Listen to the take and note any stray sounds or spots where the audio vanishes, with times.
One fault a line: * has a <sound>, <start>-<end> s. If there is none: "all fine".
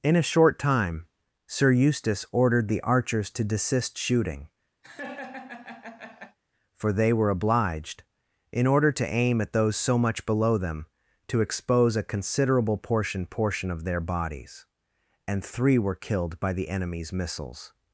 * has a laugh, 4.8-6.4 s